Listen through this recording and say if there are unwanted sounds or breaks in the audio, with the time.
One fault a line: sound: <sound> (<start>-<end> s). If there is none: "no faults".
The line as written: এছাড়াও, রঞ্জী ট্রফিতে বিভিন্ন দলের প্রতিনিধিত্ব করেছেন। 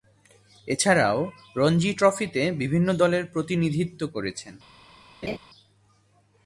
sound: laugh (5.2-5.4 s)